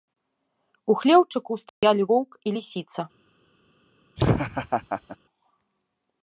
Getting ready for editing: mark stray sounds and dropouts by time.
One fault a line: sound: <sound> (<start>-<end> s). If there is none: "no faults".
sound: dropout (1.7-1.8 s)
sound: laugh (4.2-5.2 s)